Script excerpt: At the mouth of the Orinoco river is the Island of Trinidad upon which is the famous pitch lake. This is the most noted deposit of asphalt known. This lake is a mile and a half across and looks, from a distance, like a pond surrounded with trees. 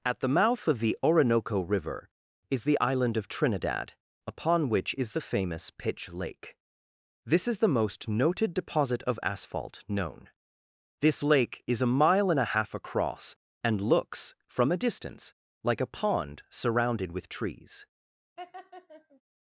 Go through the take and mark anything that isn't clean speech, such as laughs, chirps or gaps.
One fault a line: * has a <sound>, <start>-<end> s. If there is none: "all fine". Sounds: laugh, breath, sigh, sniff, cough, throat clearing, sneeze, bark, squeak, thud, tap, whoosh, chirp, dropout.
* has a laugh, 18.4-19.2 s